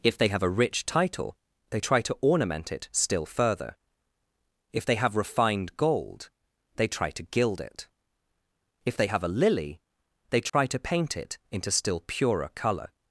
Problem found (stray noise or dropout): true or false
true